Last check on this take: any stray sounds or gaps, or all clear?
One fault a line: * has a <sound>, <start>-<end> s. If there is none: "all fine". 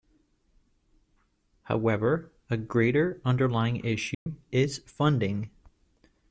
* has a dropout, 4.1-4.3 s